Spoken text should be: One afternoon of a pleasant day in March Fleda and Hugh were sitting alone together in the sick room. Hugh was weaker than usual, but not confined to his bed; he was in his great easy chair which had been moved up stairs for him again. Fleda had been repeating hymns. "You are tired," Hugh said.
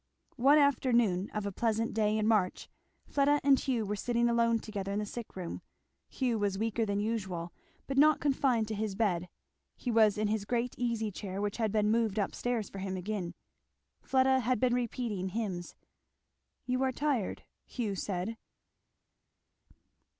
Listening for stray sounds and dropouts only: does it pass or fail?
pass